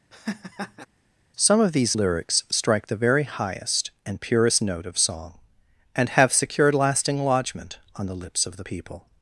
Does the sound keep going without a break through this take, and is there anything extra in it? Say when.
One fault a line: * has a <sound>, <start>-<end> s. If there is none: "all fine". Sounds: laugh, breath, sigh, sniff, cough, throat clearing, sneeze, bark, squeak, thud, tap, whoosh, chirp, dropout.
* has a laugh, 0.1-0.9 s